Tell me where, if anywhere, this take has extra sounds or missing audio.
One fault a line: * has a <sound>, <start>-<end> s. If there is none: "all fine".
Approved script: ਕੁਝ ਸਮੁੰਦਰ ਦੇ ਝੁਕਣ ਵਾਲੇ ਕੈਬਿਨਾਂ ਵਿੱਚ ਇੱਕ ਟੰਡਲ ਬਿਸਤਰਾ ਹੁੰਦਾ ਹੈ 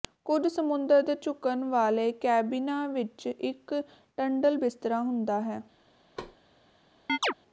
* has a thud, 6.2-6.4 s
* has a chirp, 7.1-7.3 s